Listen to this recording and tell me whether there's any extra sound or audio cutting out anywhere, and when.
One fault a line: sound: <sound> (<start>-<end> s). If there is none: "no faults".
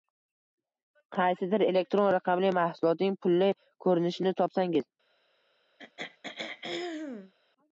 sound: throat clearing (5.8-7.3 s)